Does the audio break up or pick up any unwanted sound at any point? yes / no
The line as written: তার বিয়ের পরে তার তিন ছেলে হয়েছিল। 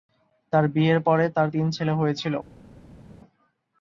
no